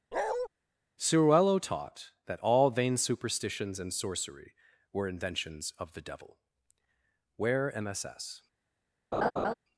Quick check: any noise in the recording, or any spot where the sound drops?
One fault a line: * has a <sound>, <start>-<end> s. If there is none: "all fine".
* has a bark, 0.1-0.5 s
* has a laugh, 9.1-9.5 s